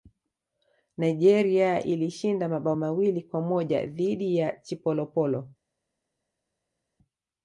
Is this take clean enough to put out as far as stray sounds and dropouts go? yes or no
yes